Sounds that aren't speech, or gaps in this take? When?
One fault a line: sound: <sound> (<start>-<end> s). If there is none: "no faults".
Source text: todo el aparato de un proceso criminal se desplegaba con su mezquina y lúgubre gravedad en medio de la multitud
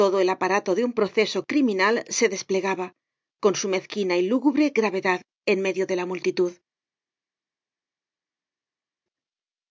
no faults